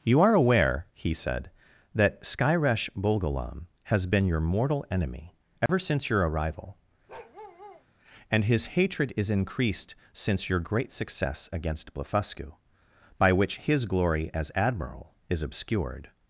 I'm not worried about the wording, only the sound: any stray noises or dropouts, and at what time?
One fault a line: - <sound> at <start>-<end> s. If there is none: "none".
- dropout at 5.7-5.7 s
- bark at 7.1-7.9 s